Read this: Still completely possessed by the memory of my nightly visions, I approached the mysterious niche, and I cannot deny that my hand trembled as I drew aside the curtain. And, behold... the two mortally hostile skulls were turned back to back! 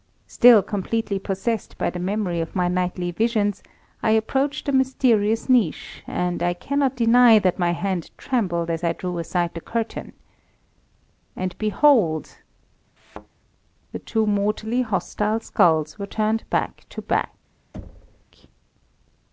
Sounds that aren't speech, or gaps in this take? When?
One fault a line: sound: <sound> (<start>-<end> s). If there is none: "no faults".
sound: thud (13.0-13.3 s)
sound: thud (17.7-18.3 s)